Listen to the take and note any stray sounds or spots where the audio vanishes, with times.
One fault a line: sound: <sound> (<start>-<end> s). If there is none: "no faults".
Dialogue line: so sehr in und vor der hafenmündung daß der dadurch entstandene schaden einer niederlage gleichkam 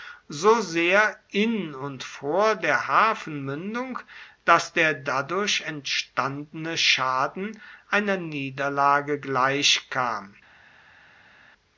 no faults